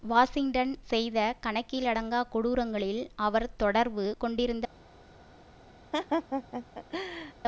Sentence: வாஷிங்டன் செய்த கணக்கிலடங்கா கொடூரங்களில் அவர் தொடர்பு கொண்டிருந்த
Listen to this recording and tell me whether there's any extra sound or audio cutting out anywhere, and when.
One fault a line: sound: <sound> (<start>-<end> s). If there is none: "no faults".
sound: laugh (5.9-7.3 s)